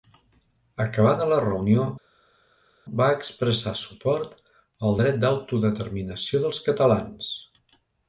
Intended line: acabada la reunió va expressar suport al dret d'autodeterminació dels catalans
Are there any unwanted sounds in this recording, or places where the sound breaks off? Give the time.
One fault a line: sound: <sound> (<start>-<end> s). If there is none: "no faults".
no faults